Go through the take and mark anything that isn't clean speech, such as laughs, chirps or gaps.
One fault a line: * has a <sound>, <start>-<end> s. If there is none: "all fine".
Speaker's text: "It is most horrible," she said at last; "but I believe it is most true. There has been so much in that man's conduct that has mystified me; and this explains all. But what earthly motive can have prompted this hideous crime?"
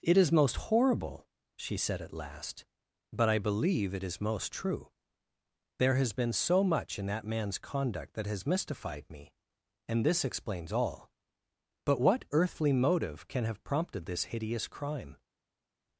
all fine